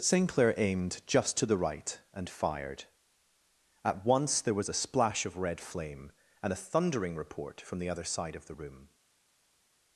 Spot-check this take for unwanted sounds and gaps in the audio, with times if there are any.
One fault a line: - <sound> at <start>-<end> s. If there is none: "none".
none